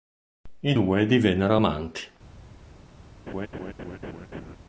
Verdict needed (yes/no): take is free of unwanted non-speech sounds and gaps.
no